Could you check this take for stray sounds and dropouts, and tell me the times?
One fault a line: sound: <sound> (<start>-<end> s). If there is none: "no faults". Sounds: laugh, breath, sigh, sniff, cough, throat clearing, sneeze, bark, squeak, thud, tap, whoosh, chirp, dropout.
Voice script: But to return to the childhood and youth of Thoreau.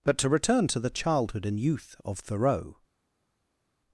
no faults